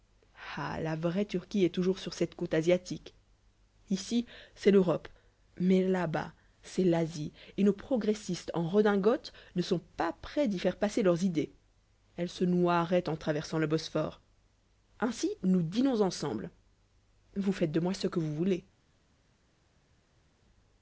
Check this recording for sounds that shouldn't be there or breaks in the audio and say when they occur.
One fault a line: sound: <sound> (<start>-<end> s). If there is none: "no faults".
no faults